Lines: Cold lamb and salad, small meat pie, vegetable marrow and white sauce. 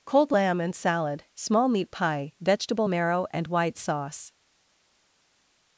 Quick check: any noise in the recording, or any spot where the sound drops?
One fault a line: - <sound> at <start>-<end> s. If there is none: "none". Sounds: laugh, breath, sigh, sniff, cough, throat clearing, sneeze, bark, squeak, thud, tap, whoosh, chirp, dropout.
none